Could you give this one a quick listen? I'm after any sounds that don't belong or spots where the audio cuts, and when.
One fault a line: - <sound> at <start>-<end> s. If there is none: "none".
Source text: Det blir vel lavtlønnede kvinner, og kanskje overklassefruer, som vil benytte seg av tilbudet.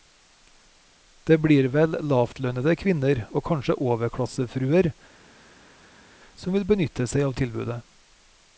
none